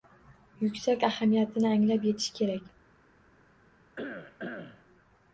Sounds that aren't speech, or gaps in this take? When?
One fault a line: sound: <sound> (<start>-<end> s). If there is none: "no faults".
sound: cough (4.0-4.8 s)